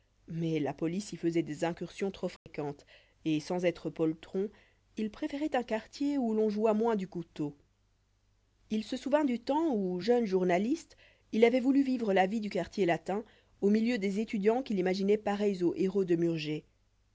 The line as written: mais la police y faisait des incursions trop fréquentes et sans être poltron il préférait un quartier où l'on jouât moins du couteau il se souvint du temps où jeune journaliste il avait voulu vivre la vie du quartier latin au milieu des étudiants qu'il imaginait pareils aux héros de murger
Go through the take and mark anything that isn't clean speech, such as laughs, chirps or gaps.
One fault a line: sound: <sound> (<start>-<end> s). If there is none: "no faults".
sound: dropout (2.4-2.5 s)